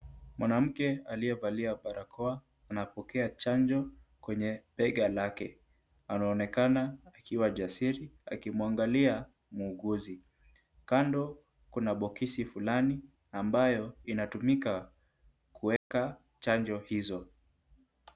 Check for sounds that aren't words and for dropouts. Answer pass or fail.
fail